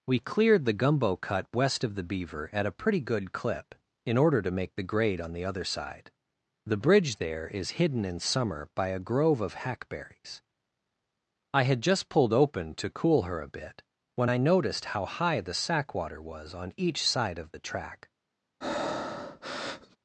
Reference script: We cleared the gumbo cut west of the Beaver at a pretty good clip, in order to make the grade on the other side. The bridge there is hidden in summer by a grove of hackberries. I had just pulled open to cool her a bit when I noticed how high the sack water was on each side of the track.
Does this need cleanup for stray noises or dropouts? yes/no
yes